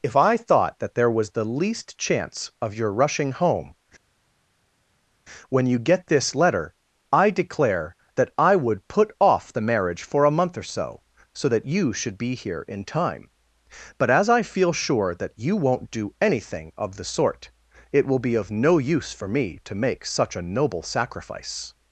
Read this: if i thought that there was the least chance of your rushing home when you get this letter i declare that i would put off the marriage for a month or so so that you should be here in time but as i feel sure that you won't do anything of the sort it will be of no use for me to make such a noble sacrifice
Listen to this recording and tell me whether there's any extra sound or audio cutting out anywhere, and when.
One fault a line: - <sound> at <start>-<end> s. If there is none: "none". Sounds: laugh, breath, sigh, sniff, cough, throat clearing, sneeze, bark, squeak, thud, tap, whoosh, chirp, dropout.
none